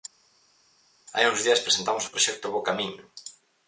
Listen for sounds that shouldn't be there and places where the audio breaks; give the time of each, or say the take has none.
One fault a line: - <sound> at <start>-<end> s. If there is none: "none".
none